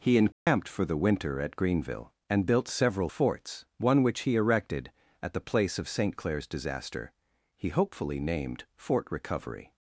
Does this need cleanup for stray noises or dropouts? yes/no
yes